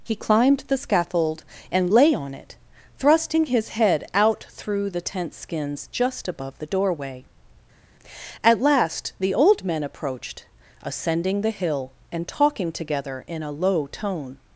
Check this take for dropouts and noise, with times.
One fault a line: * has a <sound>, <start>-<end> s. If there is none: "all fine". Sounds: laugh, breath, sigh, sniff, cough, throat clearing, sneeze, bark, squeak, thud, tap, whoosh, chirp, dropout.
all fine